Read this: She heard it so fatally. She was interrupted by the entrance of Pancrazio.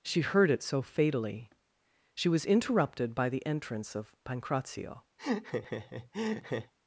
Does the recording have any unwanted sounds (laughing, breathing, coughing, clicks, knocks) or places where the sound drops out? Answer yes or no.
yes